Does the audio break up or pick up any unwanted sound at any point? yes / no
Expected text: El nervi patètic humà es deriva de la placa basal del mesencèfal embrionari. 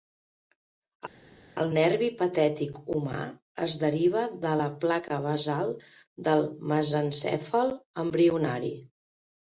no